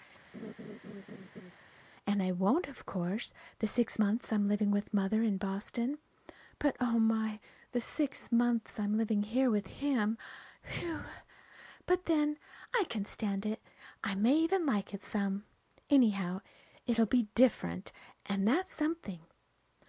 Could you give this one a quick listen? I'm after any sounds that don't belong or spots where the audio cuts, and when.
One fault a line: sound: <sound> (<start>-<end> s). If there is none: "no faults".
sound: laugh (0.3-1.5 s)